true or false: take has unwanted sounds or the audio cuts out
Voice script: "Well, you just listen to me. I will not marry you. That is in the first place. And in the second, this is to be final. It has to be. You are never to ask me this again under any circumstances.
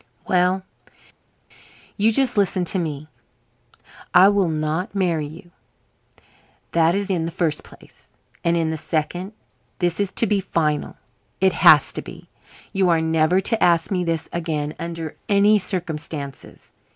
false